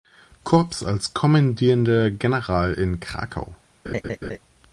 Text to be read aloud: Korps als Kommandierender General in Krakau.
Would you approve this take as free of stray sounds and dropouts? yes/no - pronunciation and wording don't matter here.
no